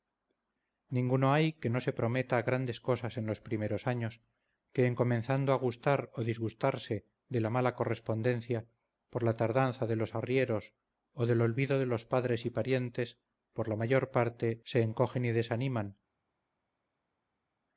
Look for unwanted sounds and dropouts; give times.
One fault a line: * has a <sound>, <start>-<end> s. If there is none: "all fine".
all fine